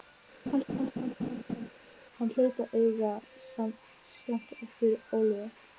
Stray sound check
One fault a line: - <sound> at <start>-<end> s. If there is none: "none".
- laugh at 0.5-1.7 s